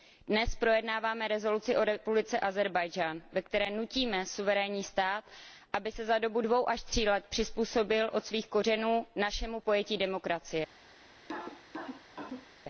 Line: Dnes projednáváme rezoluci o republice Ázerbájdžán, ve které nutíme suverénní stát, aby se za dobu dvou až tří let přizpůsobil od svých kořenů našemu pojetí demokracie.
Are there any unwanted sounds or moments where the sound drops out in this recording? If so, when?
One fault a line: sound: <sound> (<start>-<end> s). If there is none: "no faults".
sound: cough (11.2-12.5 s)